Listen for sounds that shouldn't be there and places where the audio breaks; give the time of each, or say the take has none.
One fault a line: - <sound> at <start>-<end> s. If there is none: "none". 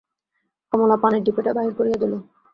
none